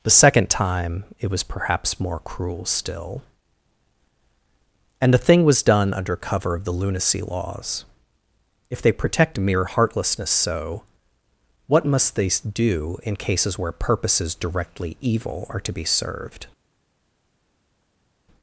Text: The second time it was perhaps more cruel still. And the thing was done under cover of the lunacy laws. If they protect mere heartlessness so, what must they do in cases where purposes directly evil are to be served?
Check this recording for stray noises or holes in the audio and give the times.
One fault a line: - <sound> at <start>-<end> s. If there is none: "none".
none